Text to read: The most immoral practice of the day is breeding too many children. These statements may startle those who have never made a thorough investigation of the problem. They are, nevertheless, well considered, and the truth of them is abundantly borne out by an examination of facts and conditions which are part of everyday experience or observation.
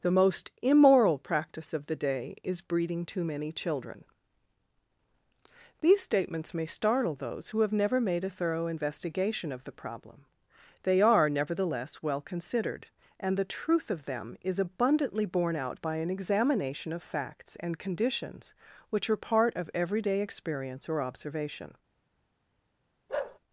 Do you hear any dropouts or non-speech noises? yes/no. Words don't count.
yes